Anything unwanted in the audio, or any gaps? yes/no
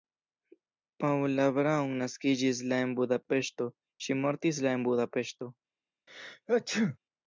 yes